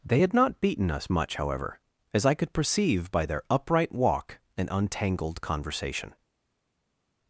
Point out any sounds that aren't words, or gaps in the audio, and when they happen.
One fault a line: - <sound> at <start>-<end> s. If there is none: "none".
none